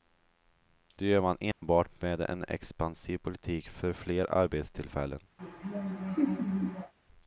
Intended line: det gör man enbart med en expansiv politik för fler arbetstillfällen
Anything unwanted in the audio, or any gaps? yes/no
yes